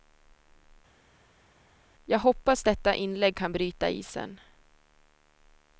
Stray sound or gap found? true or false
false